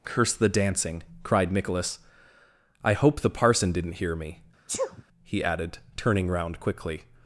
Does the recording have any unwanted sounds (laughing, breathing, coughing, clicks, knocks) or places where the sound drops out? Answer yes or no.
yes